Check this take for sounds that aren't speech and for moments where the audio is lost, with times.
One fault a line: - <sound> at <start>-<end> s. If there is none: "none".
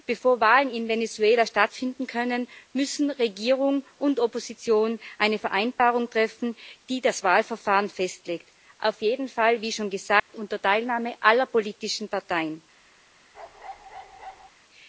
- dropout at 10.2-10.3 s
- bark at 13.3-14.5 s